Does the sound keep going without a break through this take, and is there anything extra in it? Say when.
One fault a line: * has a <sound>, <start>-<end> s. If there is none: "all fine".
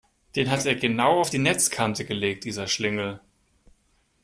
all fine